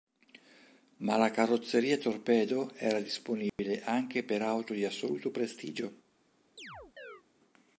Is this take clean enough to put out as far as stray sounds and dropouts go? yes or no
no